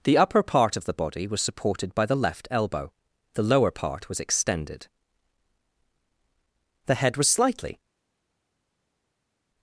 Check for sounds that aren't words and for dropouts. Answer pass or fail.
pass